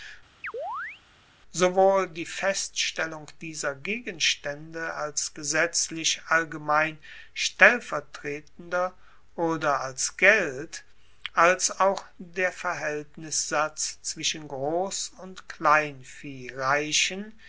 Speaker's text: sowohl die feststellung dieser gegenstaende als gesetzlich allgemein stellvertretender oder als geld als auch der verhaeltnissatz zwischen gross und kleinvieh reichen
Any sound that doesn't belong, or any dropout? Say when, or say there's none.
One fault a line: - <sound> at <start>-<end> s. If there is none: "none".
- chirp at 0.4-1.0 s